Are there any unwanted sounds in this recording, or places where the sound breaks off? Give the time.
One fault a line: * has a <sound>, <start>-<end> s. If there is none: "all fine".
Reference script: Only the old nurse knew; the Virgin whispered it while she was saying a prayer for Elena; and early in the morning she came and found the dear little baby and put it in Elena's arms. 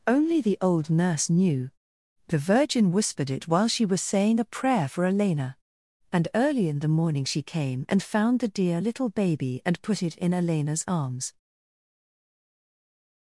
all fine